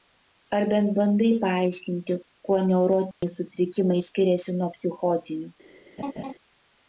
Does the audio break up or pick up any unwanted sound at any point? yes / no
yes